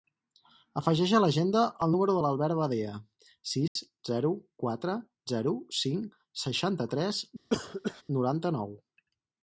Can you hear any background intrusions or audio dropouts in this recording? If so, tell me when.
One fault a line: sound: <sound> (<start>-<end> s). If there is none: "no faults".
sound: dropout (3.7-3.8 s)
sound: cough (7.5-8.0 s)